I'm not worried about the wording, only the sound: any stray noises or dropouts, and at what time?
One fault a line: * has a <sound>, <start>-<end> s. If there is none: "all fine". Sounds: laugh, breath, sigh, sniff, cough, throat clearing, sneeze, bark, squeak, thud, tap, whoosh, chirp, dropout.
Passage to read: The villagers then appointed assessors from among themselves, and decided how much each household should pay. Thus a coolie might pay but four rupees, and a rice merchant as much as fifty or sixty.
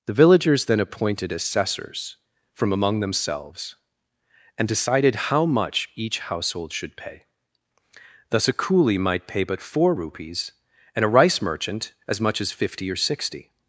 all fine